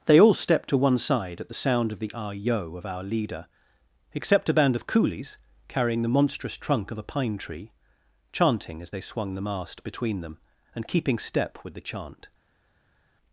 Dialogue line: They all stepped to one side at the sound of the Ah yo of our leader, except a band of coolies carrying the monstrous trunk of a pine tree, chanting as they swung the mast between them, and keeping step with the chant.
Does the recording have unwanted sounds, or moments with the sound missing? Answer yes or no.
no